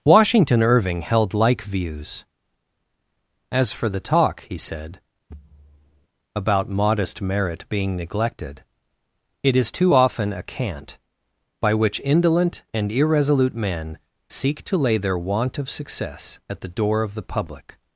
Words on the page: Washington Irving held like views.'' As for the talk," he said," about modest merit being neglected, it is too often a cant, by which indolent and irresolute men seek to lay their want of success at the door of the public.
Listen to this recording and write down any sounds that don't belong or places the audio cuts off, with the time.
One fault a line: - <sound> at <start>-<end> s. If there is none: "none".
- thud at 5.3-6.1 s